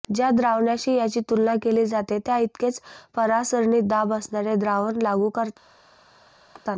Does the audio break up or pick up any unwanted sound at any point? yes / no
yes